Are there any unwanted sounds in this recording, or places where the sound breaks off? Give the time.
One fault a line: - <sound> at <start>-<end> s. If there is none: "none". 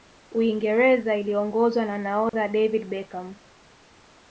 - dropout at 2.3-2.3 s